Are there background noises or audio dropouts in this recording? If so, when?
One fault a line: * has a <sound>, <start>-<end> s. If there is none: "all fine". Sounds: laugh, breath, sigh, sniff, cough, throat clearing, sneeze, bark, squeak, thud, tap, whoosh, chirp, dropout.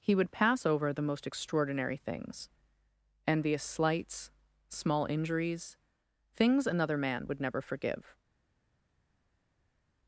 all fine